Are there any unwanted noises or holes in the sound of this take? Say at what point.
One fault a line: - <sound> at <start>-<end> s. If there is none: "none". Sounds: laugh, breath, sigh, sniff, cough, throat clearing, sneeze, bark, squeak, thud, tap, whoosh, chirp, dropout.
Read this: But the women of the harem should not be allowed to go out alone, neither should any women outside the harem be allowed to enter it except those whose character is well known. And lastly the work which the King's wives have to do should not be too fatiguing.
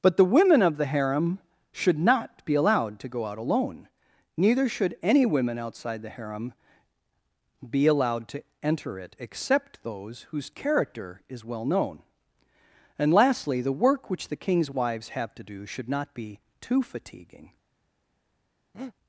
- breath at 18.7-18.9 s